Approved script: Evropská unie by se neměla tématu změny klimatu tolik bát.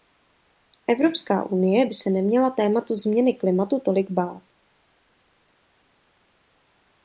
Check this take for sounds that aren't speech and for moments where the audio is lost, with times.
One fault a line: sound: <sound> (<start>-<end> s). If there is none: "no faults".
no faults